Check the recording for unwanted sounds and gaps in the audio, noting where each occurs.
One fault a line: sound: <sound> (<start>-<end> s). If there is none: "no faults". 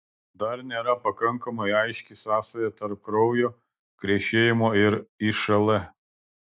no faults